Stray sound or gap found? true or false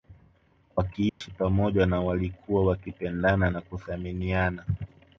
true